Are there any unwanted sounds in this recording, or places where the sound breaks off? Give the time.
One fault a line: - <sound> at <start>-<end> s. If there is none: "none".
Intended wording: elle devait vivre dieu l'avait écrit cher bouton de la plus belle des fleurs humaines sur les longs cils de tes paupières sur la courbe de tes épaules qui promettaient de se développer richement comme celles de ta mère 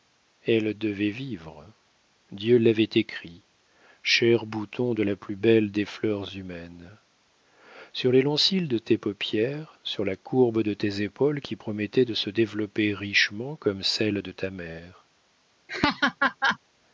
- laugh at 15.7-16.6 s